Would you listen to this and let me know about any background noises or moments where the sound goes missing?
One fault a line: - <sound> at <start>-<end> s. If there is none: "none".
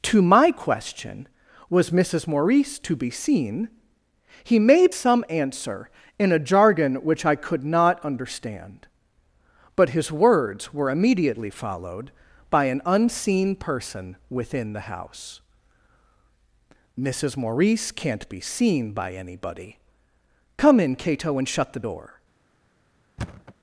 - thud at 23.2-23.5 s